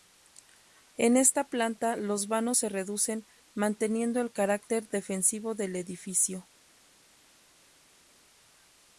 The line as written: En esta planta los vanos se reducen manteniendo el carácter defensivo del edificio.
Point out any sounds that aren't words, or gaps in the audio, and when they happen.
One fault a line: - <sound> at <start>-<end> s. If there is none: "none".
none